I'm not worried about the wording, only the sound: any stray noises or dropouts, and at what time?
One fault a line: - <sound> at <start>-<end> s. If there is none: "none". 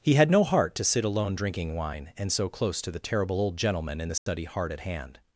- dropout at 4.2-4.3 s